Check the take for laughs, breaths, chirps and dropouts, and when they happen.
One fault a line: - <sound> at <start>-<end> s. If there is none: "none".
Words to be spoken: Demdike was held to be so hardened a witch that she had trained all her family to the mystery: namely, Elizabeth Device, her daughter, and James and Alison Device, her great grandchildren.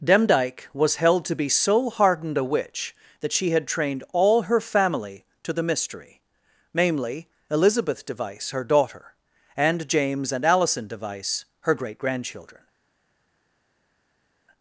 none